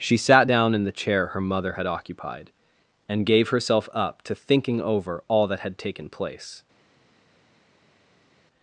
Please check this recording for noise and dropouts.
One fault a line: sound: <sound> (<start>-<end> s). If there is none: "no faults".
no faults